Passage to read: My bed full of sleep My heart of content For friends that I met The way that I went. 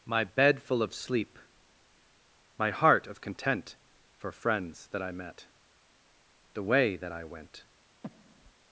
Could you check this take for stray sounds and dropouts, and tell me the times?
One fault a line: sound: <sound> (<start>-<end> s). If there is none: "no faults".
sound: breath (8.0-8.5 s)